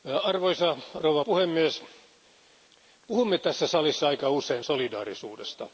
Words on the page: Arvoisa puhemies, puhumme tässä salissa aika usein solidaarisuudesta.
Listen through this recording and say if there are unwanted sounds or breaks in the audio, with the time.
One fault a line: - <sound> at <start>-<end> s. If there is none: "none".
none